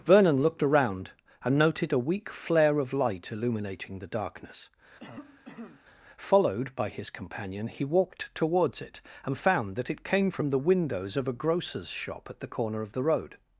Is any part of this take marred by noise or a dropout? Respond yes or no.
yes